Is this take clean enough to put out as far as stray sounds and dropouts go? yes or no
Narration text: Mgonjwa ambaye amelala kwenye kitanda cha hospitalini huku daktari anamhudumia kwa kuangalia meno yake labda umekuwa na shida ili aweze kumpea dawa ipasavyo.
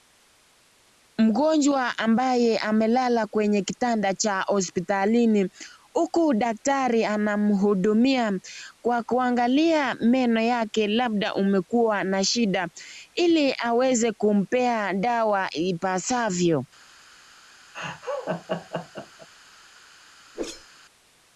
no